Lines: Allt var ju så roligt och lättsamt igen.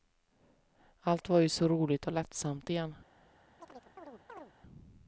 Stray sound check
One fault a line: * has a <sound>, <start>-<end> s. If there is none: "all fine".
* has a chirp, 3.6-4.5 s